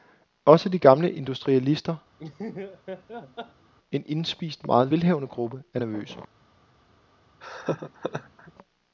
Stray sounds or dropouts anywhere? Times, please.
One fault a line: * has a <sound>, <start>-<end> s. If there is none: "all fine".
* has a laugh, 2.2-3.7 s
* has a laugh, 7.4-8.5 s